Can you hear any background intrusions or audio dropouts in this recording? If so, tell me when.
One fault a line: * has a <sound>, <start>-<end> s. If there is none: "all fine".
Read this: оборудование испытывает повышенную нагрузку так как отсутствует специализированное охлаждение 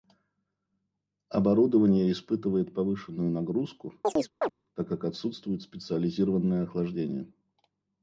* has a chirp, 4.0-4.5 s